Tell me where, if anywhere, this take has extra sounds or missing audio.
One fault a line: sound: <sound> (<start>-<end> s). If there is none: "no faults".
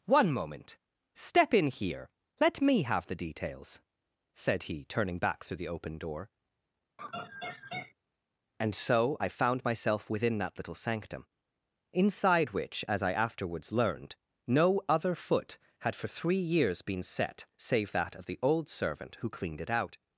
sound: laugh (7.0-7.9 s)